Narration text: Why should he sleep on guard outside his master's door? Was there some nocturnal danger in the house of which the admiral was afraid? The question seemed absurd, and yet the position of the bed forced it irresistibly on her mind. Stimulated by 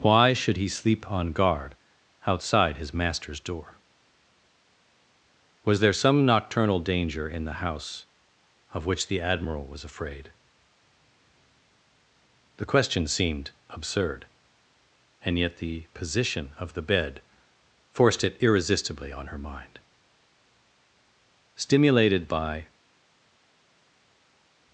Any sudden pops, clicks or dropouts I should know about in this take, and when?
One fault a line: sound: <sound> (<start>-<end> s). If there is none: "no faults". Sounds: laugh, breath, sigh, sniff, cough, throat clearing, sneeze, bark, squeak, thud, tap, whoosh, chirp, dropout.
no faults